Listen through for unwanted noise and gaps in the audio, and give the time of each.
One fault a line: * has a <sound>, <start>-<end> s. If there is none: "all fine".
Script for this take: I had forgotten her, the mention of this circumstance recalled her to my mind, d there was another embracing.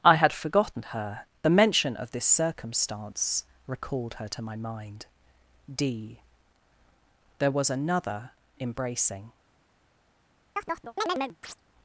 * has a chirp, 10.6-11.6 s